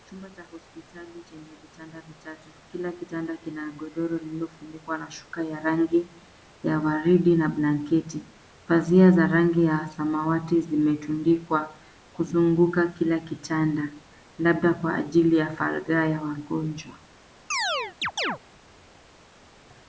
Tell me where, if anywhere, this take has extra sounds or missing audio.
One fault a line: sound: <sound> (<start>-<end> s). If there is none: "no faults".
sound: chirp (17.5-18.4 s)